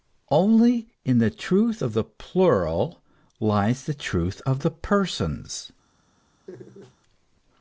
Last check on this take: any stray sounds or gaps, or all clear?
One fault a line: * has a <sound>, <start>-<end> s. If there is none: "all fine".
* has a laugh, 6.5-7.0 s